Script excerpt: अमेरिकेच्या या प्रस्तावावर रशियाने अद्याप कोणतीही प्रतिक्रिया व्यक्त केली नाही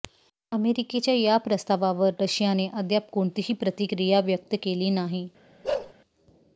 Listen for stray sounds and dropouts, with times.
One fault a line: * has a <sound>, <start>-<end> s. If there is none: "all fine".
* has a bark, 5.6-5.9 s